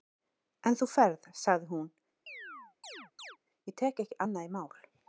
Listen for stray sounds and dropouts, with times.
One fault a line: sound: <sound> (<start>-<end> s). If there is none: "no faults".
sound: chirp (2.3-3.4 s)